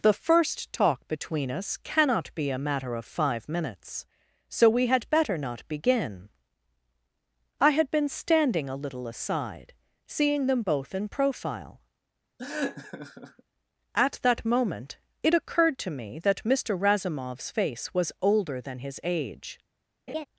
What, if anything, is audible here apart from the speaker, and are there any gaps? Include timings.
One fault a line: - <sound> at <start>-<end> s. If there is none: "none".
- laugh at 12.4-13.4 s
- laugh at 20.1-20.2 s